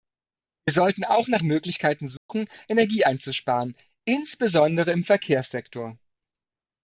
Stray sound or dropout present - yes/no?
yes